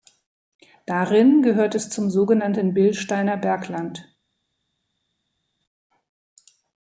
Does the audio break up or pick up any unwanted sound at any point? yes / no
no